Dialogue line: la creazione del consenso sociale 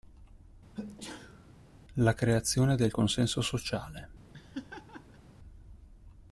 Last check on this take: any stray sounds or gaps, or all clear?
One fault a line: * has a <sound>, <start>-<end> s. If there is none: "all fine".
* has a sneeze, 0.7-1.5 s
* has a laugh, 4.3-5.2 s